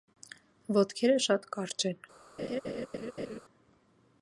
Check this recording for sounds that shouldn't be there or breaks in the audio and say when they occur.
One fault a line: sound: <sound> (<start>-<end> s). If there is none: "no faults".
sound: laugh (2.4-3.4 s)